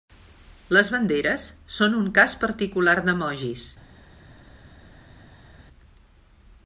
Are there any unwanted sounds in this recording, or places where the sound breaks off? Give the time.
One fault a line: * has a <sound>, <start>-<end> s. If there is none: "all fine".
all fine